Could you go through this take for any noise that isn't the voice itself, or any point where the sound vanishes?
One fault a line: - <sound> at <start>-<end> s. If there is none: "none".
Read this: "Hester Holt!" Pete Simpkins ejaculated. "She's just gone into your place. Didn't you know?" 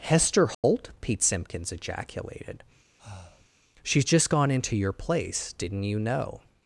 - dropout at 0.5-0.6 s
- breath at 3.0-3.5 s